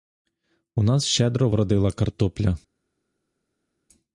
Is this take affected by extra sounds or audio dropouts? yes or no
no